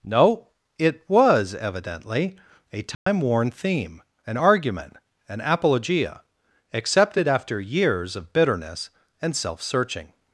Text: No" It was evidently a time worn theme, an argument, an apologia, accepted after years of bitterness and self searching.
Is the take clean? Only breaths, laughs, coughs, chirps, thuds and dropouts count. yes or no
no